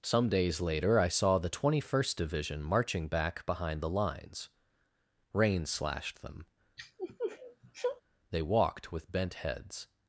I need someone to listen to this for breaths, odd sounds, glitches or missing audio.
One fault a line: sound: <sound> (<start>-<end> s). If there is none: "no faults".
sound: sniff (6.8-8.0 s)